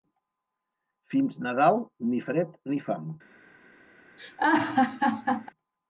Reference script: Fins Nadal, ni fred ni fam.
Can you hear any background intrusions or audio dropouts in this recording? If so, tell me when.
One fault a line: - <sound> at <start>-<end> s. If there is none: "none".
- laugh at 4.2-5.5 s